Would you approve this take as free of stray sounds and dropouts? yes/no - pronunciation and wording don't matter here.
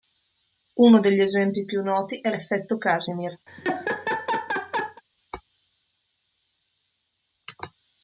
no